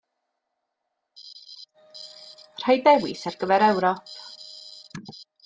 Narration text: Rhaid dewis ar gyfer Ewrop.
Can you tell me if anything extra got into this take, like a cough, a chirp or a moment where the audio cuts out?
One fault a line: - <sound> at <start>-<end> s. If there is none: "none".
none